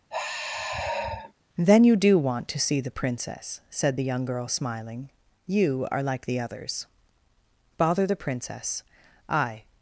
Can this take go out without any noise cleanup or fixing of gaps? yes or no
no